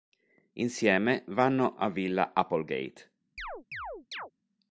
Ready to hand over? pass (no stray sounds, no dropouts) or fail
fail